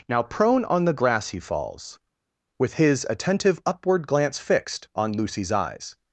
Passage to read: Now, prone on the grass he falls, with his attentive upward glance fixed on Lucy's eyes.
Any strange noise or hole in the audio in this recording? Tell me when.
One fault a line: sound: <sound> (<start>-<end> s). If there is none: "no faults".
no faults